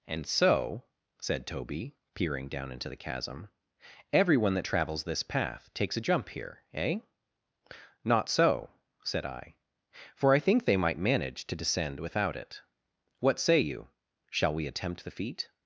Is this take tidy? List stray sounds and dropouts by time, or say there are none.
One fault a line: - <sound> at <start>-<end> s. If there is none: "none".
none